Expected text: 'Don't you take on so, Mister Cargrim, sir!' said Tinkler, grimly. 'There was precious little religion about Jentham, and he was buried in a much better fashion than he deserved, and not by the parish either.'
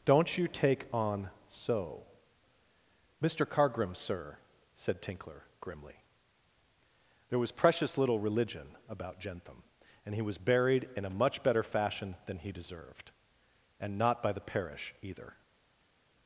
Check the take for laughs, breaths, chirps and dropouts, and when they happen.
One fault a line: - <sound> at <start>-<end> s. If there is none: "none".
none